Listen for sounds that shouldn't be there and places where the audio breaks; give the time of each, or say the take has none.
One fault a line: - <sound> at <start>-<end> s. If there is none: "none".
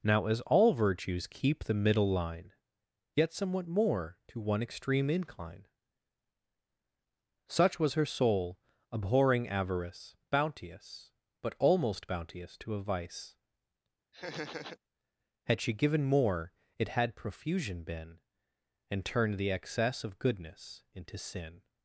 - laugh at 14.1-14.8 s